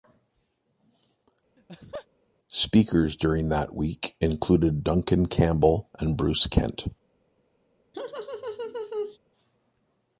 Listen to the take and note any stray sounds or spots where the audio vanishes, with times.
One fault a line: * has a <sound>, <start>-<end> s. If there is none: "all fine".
* has a laugh, 1.6-2.1 s
* has a laugh, 7.9-9.2 s